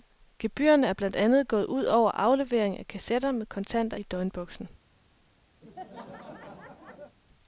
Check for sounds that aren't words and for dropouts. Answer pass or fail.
fail